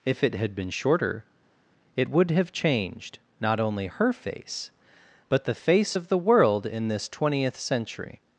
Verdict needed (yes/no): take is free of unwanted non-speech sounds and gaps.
yes